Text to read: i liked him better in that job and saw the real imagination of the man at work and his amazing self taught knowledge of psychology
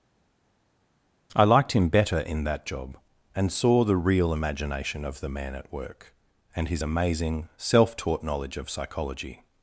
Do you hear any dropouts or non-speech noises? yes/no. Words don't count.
no